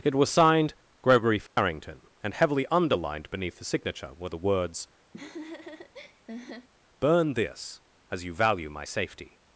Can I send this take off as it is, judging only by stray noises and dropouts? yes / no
no